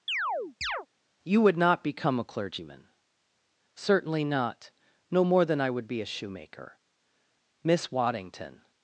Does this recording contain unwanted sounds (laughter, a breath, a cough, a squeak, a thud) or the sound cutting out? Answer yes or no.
yes